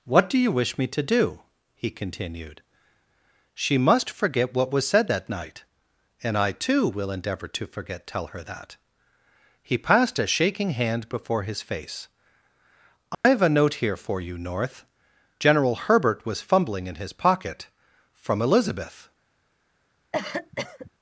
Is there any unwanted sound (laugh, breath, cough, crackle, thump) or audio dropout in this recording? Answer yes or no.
yes